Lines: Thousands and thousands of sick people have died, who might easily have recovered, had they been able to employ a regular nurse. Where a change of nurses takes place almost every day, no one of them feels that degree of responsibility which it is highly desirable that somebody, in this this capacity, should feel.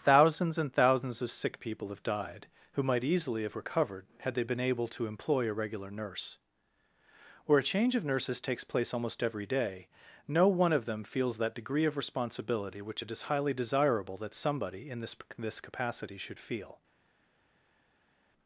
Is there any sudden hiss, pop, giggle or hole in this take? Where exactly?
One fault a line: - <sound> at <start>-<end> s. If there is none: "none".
none